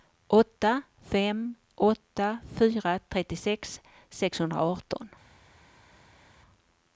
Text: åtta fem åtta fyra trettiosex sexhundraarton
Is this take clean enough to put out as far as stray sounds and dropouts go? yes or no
yes